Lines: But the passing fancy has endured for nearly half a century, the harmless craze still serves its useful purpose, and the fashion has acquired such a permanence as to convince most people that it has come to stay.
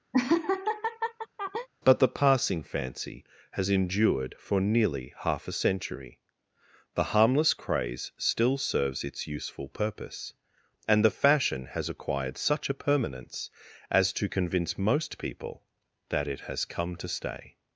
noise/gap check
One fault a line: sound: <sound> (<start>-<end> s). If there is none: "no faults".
sound: laugh (0.1-1.7 s)